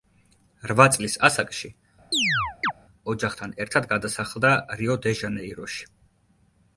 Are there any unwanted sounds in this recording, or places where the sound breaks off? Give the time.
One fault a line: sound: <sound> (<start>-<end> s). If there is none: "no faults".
sound: chirp (2.1-2.7 s)